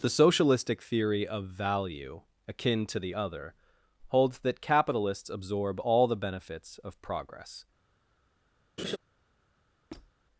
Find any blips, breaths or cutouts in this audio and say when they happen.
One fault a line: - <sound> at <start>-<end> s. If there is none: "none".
- laugh at 8.8-9.0 s
- squeak at 9.9-10.1 s